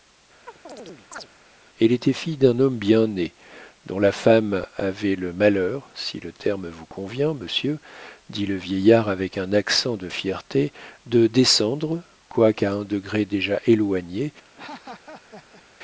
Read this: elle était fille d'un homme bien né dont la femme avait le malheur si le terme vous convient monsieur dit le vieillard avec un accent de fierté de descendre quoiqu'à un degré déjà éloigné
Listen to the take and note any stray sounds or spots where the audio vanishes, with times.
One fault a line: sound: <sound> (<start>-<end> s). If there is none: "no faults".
sound: chirp (0.5-1.3 s)
sound: laugh (14.4-15.6 s)